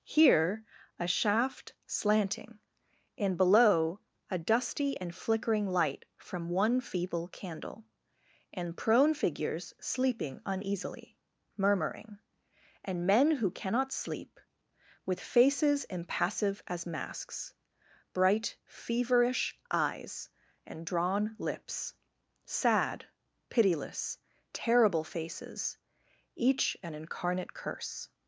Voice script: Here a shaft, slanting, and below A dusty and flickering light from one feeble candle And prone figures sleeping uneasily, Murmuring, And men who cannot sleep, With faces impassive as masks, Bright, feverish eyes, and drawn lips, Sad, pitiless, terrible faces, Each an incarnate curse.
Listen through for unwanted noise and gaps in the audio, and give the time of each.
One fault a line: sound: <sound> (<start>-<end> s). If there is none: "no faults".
no faults